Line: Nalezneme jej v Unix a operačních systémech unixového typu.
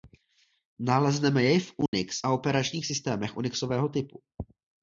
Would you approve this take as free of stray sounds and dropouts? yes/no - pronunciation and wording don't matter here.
no